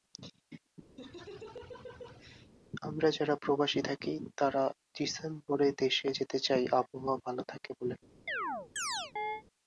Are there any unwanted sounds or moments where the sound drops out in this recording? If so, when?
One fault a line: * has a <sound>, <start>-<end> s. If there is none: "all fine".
* has a laugh, 1.0-2.5 s
* has a chirp, 8.3-9.4 s